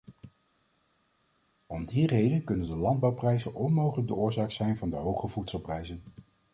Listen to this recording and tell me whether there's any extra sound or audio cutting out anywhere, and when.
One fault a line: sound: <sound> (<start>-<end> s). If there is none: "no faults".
no faults